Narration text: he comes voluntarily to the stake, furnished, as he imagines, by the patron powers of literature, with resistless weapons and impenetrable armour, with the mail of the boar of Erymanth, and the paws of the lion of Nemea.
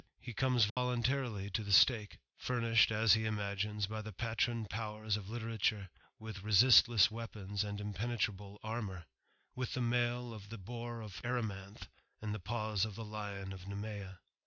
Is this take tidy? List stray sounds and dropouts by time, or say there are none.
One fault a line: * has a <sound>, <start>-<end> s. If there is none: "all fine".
* has a dropout, 0.7-0.8 s